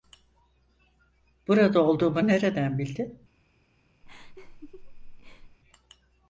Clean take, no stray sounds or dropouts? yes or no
no